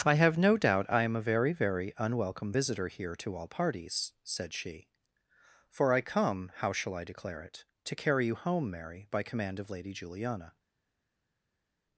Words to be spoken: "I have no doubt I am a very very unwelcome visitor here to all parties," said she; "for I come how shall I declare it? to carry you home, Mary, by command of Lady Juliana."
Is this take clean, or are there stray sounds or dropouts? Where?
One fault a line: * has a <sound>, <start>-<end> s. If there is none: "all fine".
all fine